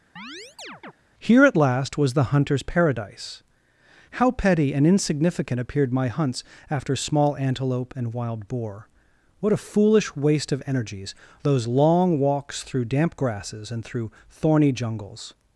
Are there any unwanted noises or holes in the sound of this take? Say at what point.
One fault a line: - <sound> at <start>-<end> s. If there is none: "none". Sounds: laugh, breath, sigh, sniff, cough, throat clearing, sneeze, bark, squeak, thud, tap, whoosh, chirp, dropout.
- chirp at 0.2-0.9 s